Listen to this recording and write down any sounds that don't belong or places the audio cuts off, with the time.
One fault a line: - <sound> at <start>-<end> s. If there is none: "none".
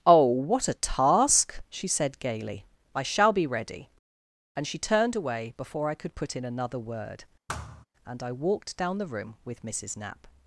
- thud at 7.5-7.9 s